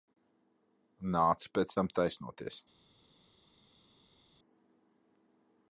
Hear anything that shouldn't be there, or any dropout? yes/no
no